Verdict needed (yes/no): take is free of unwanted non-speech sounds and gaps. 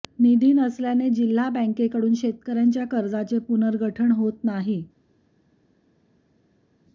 yes